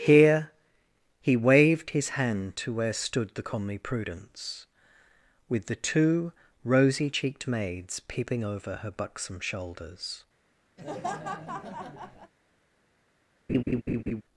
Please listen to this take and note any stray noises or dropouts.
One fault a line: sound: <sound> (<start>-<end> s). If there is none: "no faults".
sound: laugh (10.8-12.3 s)
sound: laugh (13.5-14.2 s)